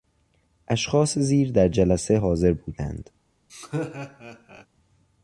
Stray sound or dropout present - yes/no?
yes